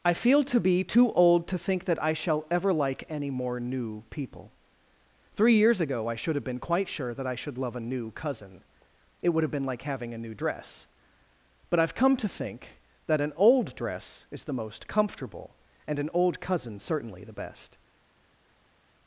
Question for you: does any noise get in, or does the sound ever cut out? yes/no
no